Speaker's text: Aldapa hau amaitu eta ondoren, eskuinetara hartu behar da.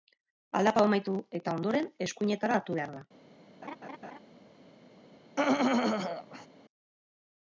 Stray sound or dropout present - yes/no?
yes